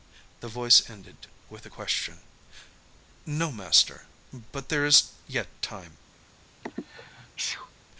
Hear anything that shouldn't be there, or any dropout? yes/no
yes